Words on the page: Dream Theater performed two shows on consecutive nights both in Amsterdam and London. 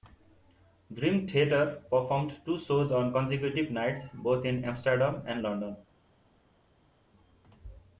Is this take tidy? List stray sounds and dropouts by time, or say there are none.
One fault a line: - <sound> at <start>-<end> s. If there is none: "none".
none